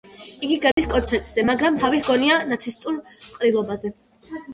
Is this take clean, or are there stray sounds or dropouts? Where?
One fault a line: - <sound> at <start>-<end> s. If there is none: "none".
- dropout at 0.7-0.8 s